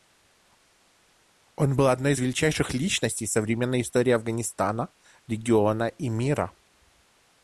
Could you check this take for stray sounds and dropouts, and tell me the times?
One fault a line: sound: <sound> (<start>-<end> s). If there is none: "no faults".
no faults